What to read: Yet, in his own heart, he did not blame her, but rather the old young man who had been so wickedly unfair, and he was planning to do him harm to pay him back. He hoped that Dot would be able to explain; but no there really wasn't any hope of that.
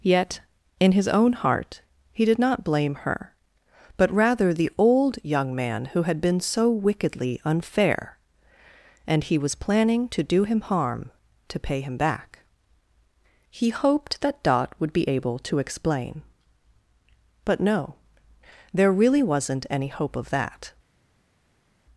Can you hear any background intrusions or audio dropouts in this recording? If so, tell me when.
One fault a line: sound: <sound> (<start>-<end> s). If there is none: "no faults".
no faults